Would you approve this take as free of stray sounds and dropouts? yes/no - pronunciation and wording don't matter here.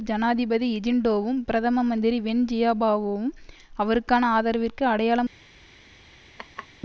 no